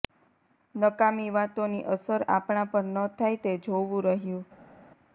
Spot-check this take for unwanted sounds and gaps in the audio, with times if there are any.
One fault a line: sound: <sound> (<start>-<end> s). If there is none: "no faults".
no faults